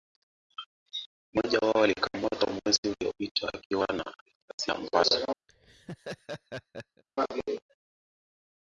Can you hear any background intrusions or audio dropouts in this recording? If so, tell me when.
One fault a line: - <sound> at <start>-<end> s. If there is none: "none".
- laugh at 5.5-7.0 s